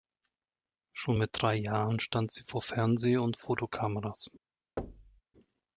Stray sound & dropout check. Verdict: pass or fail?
fail